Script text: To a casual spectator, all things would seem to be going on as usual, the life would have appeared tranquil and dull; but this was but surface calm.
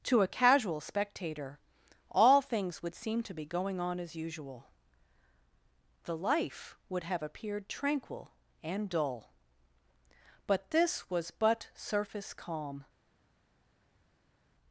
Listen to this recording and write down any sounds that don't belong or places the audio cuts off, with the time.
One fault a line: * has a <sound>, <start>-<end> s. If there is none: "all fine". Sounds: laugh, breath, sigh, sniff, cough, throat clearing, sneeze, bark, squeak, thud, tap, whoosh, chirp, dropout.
all fine